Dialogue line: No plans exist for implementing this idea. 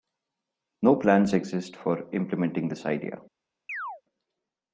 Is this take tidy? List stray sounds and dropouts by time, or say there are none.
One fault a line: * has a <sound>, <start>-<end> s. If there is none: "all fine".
* has a chirp, 3.7-4.0 s